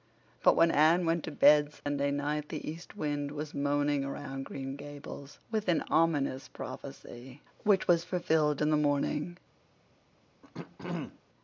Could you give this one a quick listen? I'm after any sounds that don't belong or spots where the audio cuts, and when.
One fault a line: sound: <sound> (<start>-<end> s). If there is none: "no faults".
sound: dropout (1.8-1.9 s)
sound: throat clearing (10.4-11.2 s)